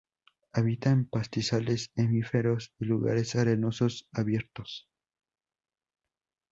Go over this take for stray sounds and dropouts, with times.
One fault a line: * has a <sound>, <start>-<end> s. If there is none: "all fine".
all fine